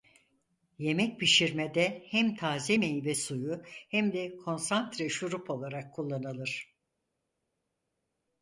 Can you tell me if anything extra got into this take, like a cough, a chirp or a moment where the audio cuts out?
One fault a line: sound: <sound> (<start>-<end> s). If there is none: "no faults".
no faults